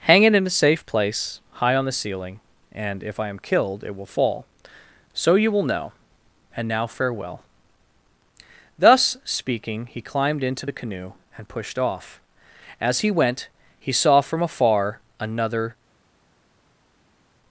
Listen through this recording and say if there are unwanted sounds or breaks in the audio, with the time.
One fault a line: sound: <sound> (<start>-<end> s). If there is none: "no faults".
no faults